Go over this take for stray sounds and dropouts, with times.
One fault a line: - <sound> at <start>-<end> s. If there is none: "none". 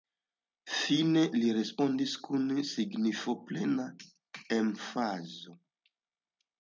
none